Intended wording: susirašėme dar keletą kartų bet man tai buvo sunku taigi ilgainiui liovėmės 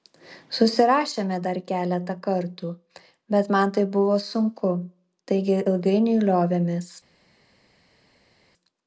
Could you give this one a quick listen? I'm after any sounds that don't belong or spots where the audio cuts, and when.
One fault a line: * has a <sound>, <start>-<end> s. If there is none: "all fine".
all fine